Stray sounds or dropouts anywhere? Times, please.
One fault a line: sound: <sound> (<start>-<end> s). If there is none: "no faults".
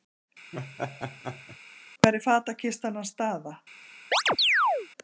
sound: laugh (0.5-1.6 s)
sound: chirp (4.1-4.9 s)